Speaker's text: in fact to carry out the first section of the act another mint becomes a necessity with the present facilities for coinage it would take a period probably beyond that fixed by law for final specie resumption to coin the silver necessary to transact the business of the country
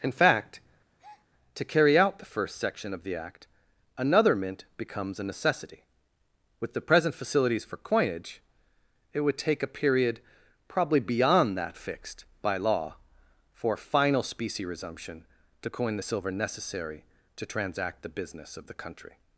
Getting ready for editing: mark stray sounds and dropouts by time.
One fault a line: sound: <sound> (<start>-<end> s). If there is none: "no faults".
sound: breath (1.0-1.3 s)